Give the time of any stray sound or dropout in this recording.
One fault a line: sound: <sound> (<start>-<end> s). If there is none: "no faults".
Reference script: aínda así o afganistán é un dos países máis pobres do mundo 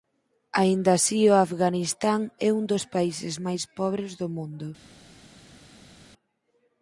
no faults